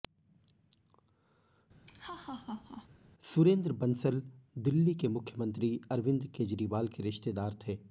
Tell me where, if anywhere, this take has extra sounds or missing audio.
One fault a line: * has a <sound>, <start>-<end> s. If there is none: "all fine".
* has a laugh, 1.9-2.9 s